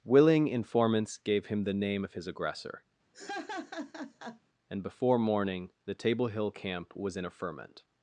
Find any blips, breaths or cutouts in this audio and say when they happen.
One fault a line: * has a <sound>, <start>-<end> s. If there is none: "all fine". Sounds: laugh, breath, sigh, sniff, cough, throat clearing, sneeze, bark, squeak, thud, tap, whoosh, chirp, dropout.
* has a laugh, 3.1-4.4 s